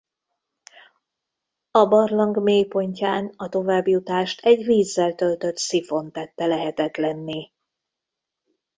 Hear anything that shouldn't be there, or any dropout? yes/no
no